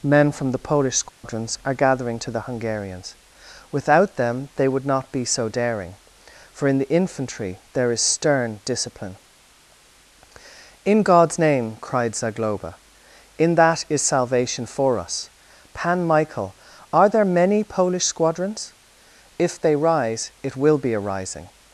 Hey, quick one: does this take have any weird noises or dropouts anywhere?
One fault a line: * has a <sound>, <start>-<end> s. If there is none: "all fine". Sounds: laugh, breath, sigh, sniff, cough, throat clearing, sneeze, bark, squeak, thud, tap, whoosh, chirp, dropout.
* has a dropout, 1.1-1.2 s